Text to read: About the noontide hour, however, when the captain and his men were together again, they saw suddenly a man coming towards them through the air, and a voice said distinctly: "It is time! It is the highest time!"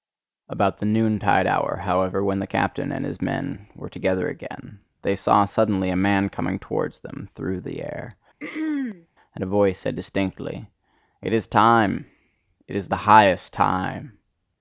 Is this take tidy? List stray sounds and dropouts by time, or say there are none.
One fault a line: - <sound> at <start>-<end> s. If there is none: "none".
- throat clearing at 8.4-9.1 s